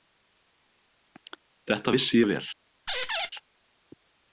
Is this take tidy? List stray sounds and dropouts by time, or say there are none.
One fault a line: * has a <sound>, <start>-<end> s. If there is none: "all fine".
* has a squeak, 2.9-3.3 s